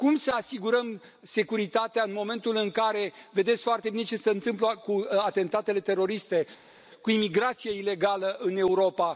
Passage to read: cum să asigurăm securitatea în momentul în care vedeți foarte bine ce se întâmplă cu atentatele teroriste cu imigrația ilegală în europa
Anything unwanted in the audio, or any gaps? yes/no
no